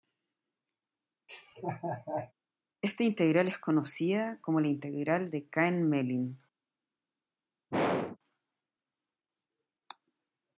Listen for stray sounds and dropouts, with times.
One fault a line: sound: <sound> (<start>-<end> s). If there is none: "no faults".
sound: laugh (1.3-2.3 s)
sound: throat clearing (7.7-8.2 s)